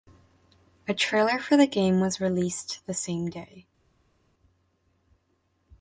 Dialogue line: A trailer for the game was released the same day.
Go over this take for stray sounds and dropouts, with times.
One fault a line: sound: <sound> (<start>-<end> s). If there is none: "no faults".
no faults